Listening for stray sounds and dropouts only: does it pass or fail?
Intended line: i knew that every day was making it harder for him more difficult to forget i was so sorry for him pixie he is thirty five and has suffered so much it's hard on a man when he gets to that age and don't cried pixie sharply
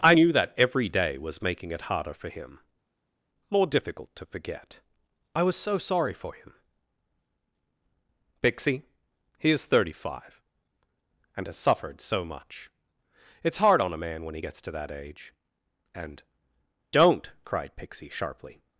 pass